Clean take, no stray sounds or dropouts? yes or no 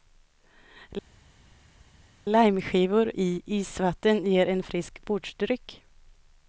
yes